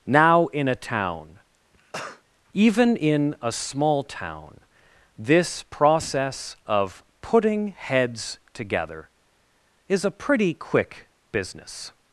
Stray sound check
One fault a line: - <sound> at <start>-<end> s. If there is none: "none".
- cough at 1.7-2.2 s